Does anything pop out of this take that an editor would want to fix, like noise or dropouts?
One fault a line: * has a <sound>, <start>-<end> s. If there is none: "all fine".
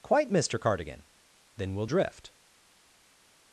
all fine